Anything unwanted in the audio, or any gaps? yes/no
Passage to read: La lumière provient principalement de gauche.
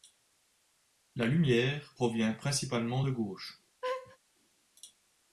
yes